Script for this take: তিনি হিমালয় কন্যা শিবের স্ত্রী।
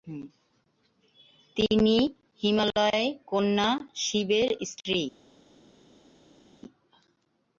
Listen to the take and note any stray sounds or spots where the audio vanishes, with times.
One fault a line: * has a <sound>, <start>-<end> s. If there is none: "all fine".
all fine